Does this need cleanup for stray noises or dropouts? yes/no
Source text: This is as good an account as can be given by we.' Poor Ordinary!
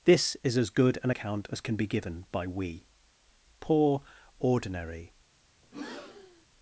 yes